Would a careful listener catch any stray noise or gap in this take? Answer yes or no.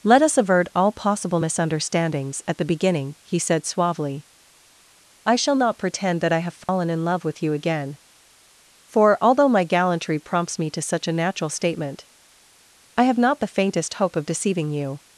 yes